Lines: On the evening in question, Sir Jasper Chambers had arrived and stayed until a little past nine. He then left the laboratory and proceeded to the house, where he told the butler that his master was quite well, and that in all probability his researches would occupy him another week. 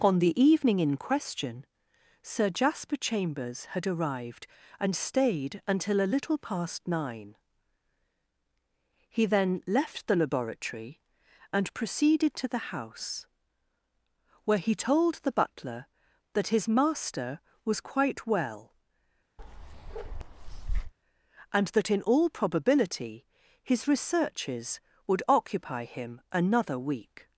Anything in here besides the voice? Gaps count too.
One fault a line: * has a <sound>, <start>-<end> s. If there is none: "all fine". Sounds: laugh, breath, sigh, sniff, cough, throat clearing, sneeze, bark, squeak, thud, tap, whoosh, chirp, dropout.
* has a bark, 19.4-20.9 s